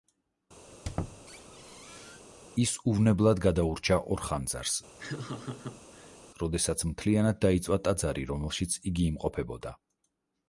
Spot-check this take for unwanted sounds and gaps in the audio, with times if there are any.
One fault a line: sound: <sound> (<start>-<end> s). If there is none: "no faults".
sound: squeak (0.7-2.2 s)
sound: laugh (5.0-6.2 s)